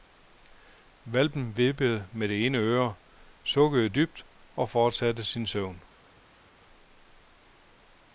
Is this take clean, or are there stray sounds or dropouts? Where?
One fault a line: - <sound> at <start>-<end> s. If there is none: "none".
none